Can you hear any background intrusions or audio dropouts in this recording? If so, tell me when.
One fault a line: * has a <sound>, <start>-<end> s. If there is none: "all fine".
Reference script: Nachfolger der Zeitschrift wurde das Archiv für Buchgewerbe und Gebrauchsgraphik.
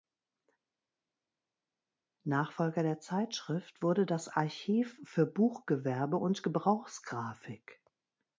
all fine